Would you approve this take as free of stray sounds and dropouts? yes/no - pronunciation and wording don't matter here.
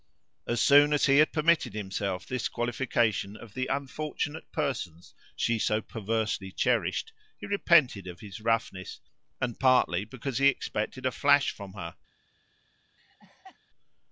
no